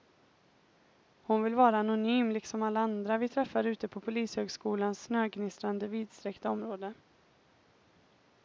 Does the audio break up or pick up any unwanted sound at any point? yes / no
no